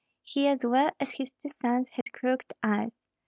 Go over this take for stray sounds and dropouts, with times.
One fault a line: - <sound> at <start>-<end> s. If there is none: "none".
- dropout at 2.0-2.1 s